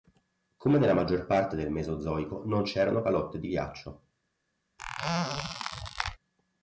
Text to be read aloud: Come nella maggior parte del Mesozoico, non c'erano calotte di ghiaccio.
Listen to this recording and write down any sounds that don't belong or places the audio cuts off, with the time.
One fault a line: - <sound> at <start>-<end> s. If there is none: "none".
- squeak at 4.8-6.2 s